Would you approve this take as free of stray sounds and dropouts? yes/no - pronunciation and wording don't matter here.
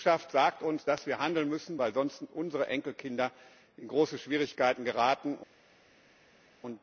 yes